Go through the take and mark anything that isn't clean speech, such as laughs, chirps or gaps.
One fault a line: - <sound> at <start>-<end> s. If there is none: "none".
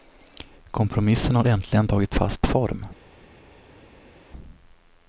none